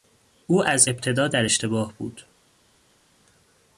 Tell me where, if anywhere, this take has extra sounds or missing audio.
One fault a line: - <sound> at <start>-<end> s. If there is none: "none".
none